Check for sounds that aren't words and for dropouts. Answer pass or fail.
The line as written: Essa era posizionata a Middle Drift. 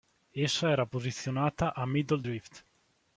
pass